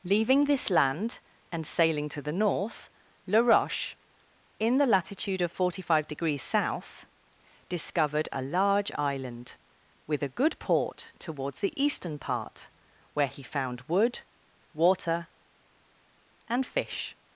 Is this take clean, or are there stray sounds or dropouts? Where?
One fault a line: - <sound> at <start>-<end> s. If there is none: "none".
none